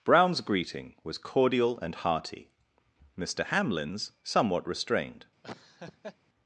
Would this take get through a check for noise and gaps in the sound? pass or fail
fail